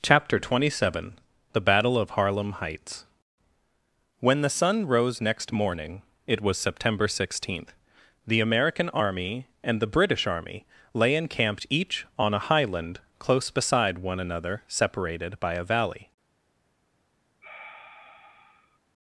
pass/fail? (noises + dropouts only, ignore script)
fail